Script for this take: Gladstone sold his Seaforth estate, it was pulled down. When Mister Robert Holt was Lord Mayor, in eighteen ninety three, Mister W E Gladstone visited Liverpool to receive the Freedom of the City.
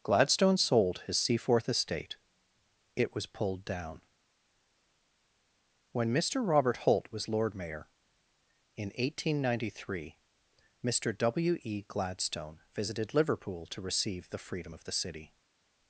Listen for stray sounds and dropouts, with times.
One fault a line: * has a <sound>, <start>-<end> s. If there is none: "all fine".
all fine